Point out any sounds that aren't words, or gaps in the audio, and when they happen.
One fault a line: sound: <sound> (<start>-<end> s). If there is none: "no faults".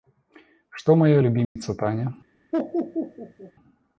sound: dropout (1.4-1.6 s)
sound: laugh (2.5-3.5 s)